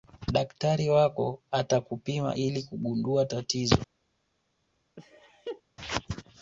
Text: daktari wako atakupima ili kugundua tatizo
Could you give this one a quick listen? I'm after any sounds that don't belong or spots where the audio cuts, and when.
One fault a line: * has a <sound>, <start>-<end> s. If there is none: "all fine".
* has a laugh, 5.0-5.6 s